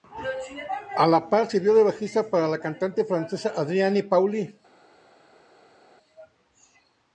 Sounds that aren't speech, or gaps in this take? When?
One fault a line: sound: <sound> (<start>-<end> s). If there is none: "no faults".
no faults